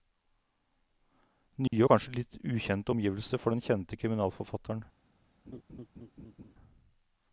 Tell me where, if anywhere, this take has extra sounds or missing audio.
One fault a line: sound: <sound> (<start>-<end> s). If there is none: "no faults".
sound: dropout (1.7-1.7 s)
sound: laugh (5.5-6.5 s)